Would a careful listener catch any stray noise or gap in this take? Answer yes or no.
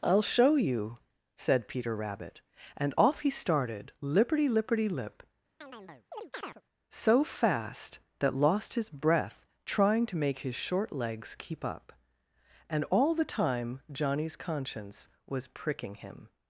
yes